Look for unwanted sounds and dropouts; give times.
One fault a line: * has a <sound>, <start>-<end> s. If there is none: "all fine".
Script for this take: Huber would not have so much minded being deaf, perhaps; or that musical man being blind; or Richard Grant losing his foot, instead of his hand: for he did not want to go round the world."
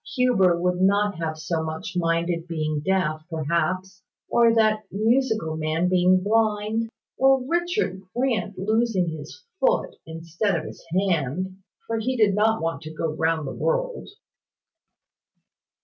all fine